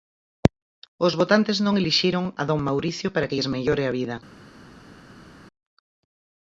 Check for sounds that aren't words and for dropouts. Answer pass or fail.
pass